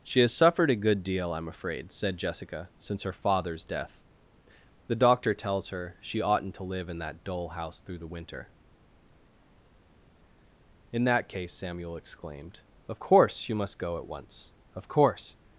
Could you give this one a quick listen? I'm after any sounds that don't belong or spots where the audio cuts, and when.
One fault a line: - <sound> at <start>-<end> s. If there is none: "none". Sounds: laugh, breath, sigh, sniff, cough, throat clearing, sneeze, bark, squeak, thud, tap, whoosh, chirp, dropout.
none